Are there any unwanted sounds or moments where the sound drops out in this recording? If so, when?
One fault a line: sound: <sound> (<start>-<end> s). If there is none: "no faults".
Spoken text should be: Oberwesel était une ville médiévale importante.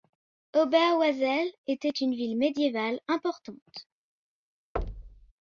sound: thud (4.8-5.3 s)